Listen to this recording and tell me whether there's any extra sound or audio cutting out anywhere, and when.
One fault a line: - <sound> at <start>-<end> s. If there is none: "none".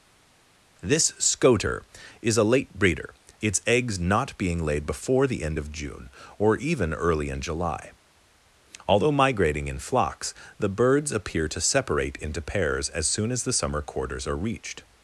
none